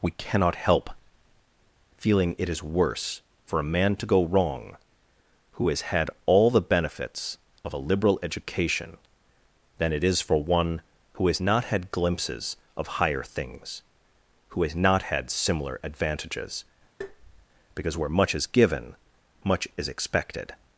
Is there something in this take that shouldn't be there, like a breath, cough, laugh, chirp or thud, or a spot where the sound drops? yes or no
yes